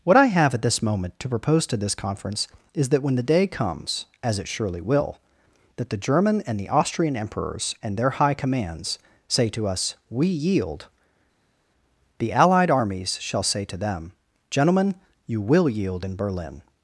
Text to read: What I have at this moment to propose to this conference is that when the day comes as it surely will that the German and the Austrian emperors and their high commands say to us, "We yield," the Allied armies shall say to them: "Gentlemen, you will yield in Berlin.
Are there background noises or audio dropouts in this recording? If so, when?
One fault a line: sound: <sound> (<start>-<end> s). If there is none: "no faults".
no faults